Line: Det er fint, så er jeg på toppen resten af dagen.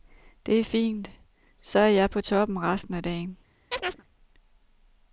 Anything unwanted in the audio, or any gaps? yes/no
yes